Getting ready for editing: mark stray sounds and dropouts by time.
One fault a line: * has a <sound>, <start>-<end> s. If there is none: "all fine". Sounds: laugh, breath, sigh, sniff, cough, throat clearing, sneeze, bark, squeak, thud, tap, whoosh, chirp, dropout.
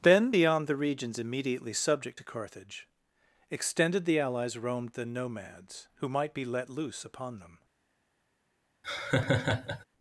* has a laugh, 8.8-9.8 s